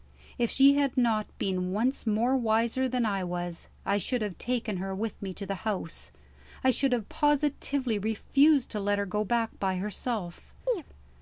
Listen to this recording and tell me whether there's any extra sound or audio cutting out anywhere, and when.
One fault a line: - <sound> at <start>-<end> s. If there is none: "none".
- chirp at 10.7-10.8 s